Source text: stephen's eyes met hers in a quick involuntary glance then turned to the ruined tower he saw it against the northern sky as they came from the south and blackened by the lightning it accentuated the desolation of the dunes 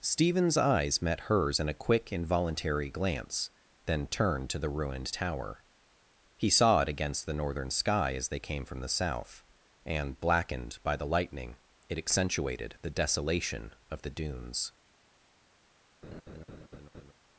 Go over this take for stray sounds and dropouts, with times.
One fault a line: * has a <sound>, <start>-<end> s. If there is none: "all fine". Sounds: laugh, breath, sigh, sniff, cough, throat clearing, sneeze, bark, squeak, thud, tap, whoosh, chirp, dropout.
* has a laugh, 16.0-17.1 s